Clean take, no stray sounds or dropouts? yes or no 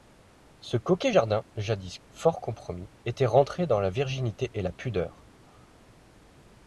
yes